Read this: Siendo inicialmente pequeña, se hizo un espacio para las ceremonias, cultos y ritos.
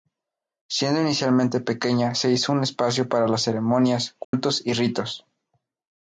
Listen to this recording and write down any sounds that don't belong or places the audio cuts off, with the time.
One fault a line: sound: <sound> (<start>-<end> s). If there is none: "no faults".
sound: dropout (4.2-4.3 s)